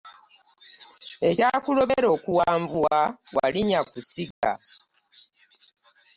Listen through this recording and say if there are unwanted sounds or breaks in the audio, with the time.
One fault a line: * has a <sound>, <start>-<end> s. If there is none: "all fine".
* has a dropout, 4.3-4.4 s